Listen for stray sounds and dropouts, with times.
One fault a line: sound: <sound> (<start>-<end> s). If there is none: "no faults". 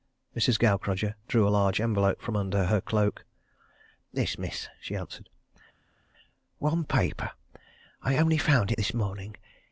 no faults